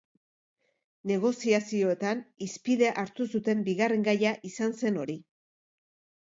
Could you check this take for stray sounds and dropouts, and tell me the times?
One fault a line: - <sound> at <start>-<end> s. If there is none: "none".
none